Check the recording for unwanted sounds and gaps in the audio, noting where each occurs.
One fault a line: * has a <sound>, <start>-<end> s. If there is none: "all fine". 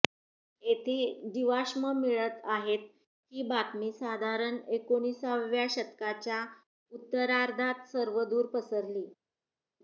all fine